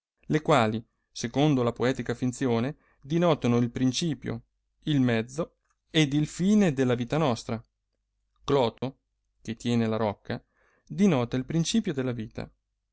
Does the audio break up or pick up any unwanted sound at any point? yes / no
yes